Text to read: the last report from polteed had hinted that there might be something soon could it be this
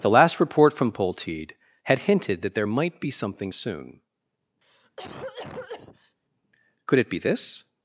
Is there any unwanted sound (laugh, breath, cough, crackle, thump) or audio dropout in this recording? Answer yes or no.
yes